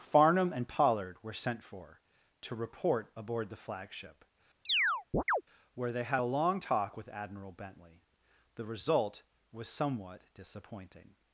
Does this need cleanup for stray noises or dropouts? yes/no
yes